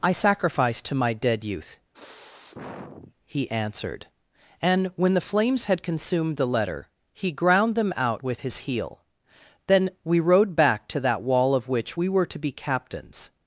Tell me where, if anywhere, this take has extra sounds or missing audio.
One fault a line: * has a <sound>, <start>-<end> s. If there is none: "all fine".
* has a sniff, 1.9-3.1 s